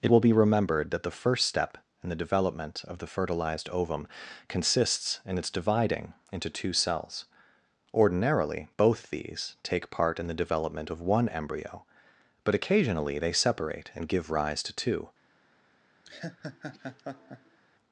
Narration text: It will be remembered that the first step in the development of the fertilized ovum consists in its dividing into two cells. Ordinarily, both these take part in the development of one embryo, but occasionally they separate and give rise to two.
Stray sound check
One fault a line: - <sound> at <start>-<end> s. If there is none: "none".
- laugh at 16.0-17.6 s